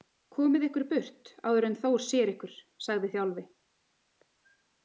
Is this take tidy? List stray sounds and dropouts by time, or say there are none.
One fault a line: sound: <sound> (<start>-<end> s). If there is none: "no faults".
no faults